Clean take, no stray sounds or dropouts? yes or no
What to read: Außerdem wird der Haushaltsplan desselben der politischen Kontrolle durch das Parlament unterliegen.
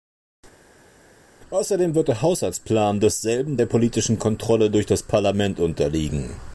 yes